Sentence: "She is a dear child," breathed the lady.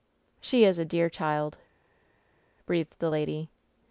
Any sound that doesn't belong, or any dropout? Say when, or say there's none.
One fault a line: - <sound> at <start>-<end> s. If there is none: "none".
none